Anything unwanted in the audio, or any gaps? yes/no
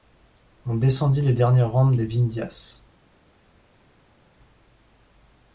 no